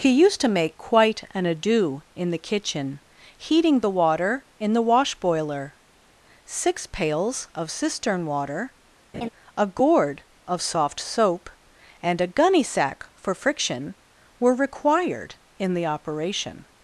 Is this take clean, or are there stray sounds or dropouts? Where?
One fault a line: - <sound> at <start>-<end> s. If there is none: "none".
- laugh at 9.1-9.3 s